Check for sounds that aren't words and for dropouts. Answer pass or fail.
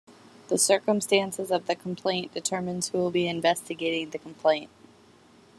pass